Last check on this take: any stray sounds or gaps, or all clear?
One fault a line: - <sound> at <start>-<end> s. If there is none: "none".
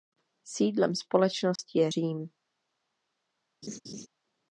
- dropout at 1.6-1.6 s
- laugh at 3.6-4.1 s